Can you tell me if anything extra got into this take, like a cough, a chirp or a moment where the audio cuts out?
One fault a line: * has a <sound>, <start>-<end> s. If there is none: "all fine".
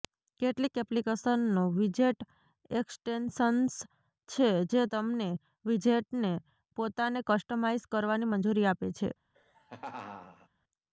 * has a laugh, 9.3-10.5 s